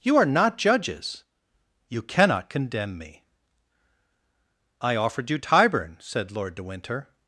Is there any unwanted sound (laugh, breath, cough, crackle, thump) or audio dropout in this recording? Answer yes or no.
no